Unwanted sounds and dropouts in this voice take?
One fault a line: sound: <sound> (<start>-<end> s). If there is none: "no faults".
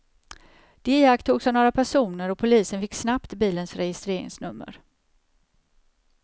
no faults